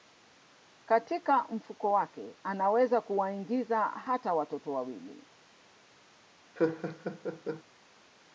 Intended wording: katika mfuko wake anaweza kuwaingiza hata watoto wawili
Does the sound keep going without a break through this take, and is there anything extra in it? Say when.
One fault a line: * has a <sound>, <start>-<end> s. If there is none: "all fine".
* has a laugh, 6.6-7.6 s